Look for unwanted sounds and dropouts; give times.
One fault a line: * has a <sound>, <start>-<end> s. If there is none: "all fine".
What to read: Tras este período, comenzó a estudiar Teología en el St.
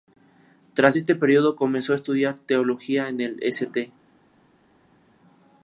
all fine